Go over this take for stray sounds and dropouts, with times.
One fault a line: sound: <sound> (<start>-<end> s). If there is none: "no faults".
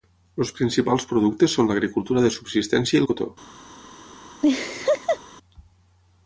sound: laugh (4.4-5.2 s)